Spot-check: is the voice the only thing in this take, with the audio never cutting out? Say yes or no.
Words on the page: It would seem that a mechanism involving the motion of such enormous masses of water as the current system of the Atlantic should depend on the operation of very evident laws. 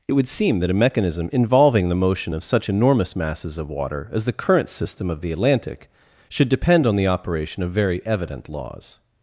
yes